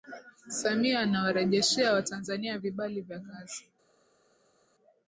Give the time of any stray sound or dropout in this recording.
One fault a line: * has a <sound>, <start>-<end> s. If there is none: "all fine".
all fine